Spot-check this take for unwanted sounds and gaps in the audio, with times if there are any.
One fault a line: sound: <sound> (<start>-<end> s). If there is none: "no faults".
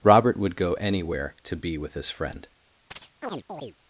sound: chirp (2.9-3.8 s)